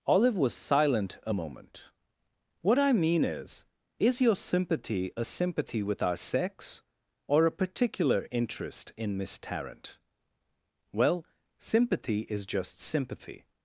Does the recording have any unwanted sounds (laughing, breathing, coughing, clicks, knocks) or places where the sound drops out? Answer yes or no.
no